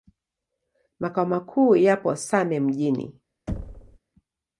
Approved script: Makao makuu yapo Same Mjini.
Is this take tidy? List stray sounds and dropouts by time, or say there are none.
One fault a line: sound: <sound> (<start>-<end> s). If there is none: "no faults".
sound: thud (3.5-4.0 s)